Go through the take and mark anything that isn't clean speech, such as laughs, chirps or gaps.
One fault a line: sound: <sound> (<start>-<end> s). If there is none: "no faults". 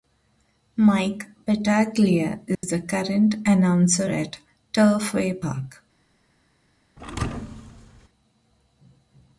sound: dropout (2.5-2.6 s)
sound: thud (7.0-8.1 s)